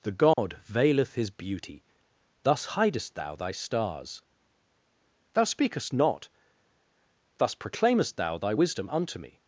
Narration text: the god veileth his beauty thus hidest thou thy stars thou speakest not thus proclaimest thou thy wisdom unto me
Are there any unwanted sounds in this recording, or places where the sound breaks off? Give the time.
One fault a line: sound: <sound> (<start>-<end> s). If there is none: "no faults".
sound: dropout (0.3-0.4 s)